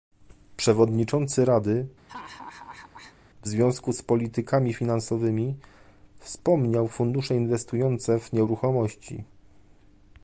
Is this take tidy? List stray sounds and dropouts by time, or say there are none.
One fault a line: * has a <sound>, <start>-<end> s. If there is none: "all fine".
* has a laugh, 2.1-3.2 s